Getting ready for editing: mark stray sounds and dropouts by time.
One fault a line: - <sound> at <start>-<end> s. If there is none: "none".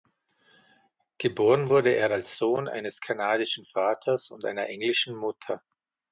none